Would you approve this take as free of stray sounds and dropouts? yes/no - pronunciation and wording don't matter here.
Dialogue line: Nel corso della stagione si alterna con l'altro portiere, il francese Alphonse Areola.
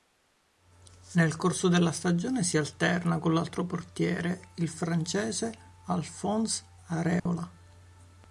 no